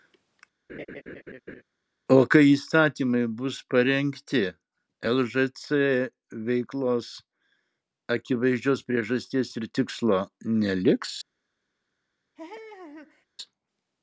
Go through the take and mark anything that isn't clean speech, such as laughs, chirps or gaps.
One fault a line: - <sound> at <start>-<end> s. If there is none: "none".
- laugh at 0.7-1.6 s
- laugh at 12.4-13.3 s